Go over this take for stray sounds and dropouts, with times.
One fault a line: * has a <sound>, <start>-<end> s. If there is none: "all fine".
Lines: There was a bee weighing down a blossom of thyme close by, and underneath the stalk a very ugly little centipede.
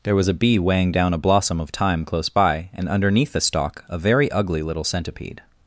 all fine